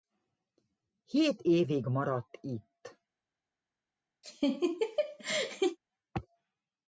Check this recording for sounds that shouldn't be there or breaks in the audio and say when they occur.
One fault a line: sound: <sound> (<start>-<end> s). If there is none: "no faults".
sound: laugh (4.2-5.8 s)